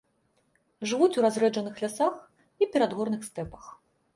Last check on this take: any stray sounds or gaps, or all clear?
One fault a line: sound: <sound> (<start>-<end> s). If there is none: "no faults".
no faults